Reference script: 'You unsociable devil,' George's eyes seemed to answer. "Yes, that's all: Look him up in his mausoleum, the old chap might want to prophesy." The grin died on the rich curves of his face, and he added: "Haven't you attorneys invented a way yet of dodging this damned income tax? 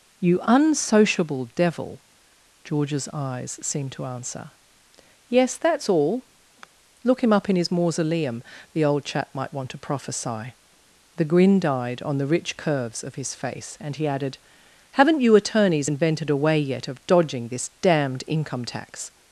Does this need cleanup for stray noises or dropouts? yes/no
yes